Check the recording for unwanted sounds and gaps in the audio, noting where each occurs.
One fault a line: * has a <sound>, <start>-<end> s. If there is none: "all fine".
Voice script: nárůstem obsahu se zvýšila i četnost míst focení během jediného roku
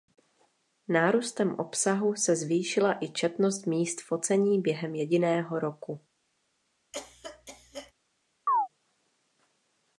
* has a cough, 6.9-7.9 s
* has a chirp, 8.5-8.7 s